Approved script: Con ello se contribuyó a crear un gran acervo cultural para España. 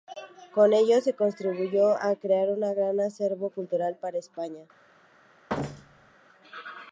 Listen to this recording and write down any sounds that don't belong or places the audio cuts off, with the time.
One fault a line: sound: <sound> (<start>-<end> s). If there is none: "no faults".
sound: thud (5.5-6.1 s)